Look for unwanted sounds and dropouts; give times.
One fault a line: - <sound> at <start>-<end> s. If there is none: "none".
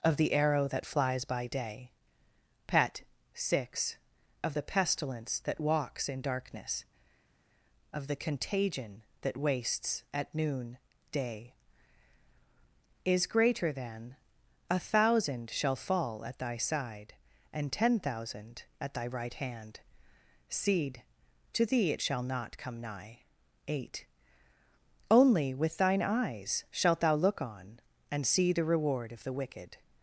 none